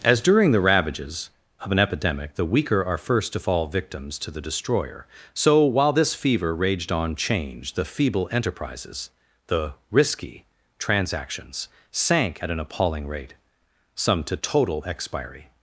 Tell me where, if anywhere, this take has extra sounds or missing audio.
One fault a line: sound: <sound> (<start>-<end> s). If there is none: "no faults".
no faults